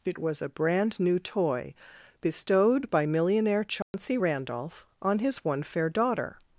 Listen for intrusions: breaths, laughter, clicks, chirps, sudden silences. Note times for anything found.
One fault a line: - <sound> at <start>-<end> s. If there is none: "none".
- dropout at 3.8-3.9 s